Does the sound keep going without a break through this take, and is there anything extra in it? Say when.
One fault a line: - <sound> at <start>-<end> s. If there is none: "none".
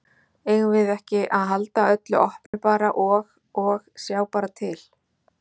- dropout at 2.5-2.5 s